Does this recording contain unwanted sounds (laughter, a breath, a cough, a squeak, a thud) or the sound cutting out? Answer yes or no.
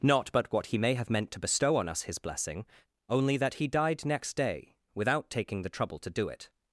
no